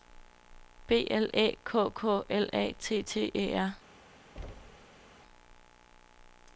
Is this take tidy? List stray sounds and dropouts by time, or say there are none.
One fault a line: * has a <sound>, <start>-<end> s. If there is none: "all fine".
* has a thud, 4.4-5.1 s